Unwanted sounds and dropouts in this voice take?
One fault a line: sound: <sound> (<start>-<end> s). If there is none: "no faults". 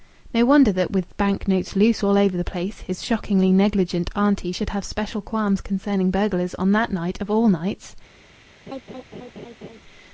sound: laugh (8.7-9.8 s)